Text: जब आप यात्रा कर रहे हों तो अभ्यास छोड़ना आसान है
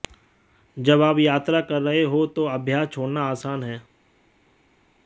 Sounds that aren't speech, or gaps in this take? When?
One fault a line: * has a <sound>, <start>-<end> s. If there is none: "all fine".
all fine